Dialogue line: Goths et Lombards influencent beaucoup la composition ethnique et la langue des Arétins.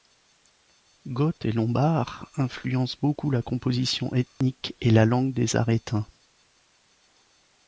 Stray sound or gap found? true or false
true